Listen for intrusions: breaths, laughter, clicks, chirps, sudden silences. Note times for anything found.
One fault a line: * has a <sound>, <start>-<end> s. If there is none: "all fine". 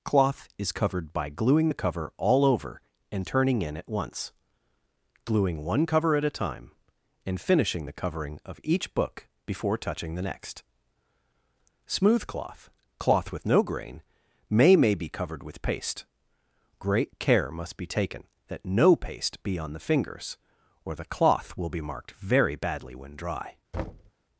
* has a thud, 23.7-24.1 s